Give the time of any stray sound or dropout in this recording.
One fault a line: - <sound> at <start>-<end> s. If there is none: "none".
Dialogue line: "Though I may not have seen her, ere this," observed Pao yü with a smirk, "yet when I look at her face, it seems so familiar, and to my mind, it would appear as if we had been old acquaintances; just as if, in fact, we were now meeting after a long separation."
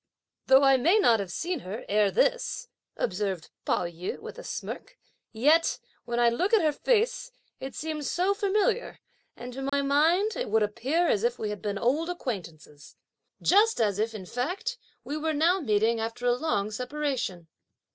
- dropout at 9.7-9.7 s